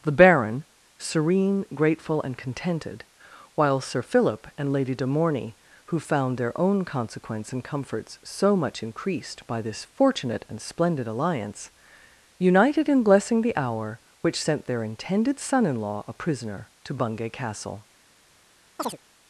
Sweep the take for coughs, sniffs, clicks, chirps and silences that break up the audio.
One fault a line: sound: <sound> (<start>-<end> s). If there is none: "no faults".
sound: chirp (18.8-19.0 s)